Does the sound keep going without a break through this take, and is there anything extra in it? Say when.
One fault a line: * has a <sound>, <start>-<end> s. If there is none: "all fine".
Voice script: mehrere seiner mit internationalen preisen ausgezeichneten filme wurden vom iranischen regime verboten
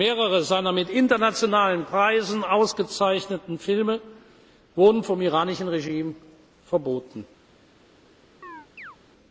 * has a chirp, 8.4-9.0 s